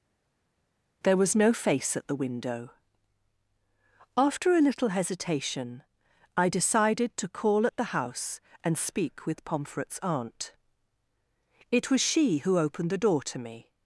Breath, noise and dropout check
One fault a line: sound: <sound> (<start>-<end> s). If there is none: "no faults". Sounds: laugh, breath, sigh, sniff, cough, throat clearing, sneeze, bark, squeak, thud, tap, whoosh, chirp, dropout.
no faults